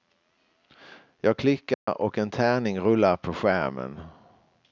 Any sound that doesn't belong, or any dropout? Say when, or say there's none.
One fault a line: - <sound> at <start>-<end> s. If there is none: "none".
- dropout at 1.7-1.9 s